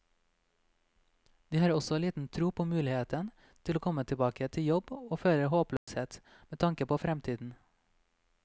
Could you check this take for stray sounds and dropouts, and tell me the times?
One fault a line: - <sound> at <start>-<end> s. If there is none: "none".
- dropout at 5.8-5.9 s